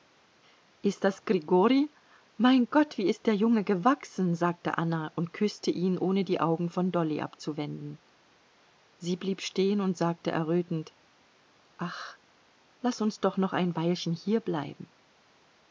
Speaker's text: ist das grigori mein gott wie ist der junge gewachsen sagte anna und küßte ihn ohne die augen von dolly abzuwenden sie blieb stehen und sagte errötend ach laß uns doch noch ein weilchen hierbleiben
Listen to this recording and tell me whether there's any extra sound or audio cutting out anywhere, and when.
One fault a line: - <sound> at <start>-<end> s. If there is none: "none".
none